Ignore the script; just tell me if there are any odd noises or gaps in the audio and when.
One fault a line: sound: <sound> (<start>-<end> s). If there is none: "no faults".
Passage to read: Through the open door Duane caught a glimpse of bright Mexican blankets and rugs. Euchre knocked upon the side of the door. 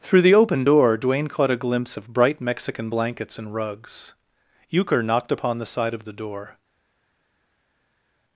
no faults